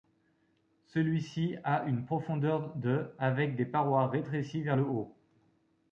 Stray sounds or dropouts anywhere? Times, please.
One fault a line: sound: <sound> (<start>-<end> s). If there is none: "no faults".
no faults